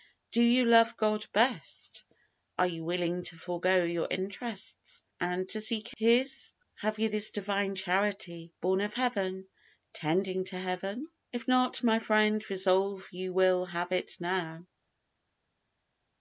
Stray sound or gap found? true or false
false